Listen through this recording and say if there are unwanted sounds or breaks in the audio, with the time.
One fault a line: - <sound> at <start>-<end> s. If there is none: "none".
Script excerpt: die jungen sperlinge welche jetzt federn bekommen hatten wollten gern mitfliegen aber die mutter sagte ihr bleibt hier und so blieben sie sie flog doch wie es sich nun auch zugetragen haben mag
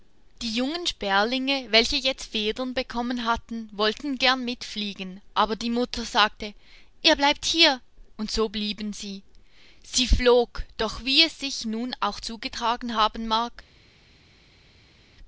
none